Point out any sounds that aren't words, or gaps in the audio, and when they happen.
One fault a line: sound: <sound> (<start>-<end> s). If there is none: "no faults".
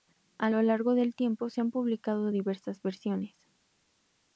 no faults